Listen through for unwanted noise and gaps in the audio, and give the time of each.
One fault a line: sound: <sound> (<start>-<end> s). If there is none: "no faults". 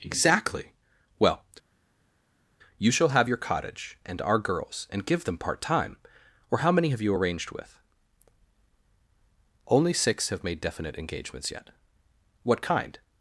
no faults